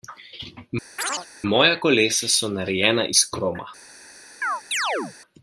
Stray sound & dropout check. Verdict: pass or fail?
fail